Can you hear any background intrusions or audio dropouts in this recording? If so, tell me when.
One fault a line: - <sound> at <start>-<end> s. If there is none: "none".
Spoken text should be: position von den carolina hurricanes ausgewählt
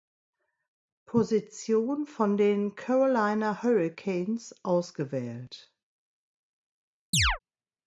- chirp at 7.1-7.4 s